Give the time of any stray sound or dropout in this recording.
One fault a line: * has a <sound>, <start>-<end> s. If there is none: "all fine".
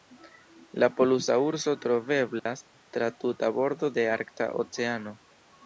* has a dropout, 2.4-2.5 s